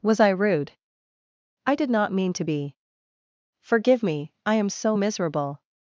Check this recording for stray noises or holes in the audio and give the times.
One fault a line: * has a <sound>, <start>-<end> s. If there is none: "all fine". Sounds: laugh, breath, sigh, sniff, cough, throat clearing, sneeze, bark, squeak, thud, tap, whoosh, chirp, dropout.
all fine